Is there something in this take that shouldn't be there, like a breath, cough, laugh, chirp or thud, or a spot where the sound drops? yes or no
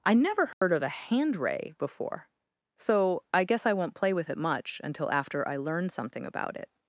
yes